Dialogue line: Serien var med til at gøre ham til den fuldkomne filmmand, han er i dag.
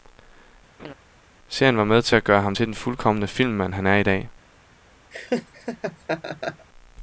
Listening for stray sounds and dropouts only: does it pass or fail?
fail